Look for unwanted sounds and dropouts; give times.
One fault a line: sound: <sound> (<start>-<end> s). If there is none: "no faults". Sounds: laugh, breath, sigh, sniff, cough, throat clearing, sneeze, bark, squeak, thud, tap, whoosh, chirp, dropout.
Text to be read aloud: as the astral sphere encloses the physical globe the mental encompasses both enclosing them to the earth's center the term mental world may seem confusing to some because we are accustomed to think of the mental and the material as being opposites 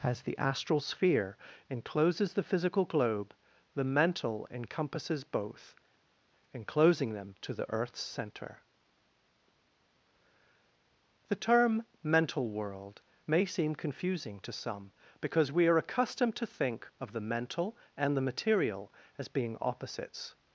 no faults